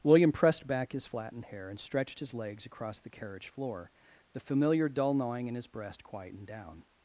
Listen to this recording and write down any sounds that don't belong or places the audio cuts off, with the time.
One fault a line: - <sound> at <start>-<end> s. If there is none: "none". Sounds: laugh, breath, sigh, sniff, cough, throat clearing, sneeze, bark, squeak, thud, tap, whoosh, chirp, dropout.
none